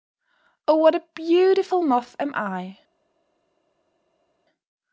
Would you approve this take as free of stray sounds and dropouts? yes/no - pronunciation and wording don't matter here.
yes